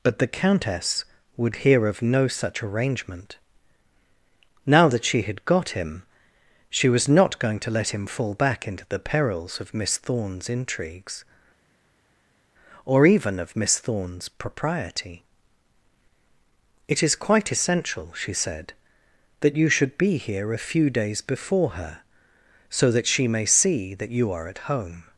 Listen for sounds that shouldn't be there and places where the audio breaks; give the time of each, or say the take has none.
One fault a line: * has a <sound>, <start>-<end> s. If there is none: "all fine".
all fine